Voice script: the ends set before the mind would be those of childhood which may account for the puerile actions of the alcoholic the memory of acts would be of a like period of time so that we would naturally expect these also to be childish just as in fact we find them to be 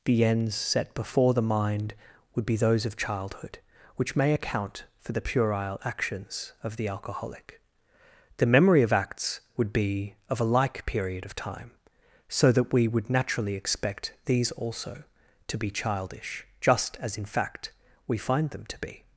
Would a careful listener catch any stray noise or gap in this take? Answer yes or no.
no